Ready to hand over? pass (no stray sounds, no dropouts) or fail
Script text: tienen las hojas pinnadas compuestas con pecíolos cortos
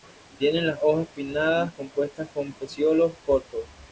pass